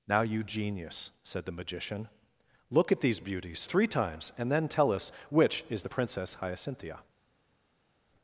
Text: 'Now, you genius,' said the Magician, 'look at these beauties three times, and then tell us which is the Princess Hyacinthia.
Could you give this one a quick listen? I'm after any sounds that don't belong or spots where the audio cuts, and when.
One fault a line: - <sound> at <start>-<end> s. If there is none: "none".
none